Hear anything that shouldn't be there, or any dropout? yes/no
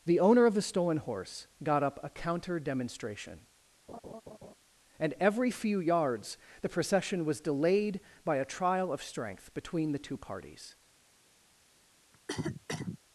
yes